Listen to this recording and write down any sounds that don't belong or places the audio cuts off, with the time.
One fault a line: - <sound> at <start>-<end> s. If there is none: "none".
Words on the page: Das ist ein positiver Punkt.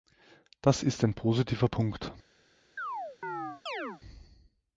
- chirp at 2.8-4.0 s